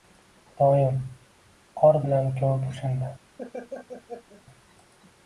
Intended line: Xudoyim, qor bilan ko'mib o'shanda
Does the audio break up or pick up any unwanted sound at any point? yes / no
yes